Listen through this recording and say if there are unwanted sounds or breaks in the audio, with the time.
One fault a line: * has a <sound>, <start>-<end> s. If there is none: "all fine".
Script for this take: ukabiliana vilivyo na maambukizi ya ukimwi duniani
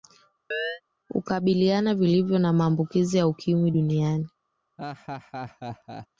* has a chirp, 0.5-0.8 s
* has a laugh, 4.8-6.1 s